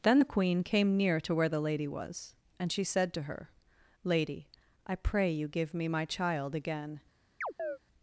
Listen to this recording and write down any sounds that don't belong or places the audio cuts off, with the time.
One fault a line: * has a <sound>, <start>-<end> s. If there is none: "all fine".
* has a chirp, 7.4-7.8 s